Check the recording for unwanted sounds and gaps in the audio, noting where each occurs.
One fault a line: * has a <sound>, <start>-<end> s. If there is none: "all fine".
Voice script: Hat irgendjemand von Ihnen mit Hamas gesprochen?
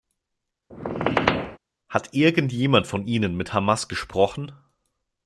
* has a squeak, 0.7-1.6 s